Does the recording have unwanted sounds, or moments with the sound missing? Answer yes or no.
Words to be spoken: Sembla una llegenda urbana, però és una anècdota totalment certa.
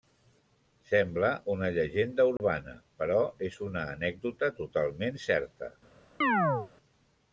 yes